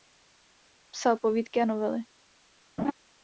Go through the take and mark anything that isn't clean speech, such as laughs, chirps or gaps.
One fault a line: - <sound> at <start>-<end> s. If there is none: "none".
- laugh at 2.8-2.9 s